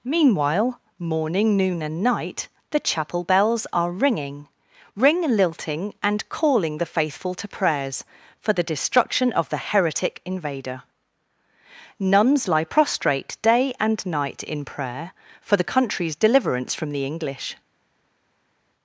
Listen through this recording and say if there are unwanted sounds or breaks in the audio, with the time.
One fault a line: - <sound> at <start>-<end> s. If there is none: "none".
none